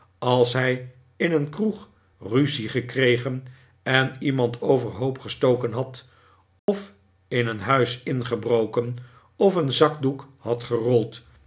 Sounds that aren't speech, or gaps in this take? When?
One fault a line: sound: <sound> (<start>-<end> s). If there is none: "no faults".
sound: dropout (6.6-6.7 s)